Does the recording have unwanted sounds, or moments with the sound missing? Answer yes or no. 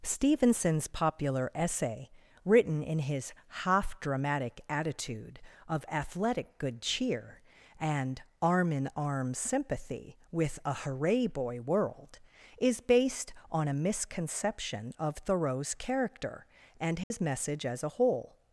yes